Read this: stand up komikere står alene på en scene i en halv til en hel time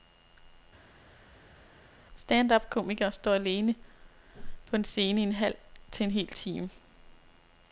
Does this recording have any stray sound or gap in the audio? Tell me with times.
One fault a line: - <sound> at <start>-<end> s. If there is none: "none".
none